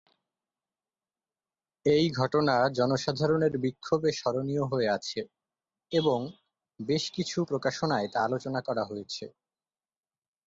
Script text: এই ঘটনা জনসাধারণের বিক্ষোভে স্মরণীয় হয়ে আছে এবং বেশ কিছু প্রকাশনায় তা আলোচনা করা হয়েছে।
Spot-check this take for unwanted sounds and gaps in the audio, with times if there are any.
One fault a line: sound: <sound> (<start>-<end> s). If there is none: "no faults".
no faults